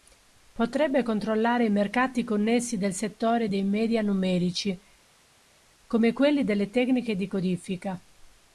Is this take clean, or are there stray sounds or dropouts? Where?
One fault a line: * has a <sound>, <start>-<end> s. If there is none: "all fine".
all fine